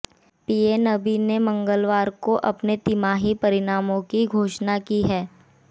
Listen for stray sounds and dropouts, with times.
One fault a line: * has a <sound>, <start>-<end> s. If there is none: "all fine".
all fine